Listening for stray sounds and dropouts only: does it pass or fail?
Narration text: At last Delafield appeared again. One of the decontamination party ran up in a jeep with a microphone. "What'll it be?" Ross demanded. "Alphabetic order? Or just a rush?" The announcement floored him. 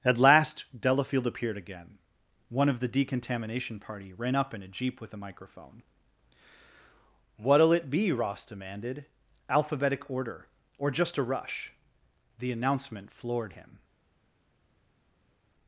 pass